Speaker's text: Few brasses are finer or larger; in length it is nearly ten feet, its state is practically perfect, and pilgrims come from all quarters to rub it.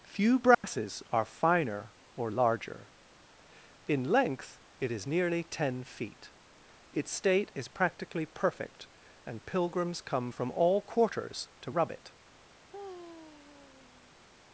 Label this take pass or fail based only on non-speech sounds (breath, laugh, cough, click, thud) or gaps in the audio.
fail